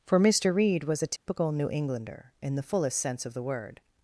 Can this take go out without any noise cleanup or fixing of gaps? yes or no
no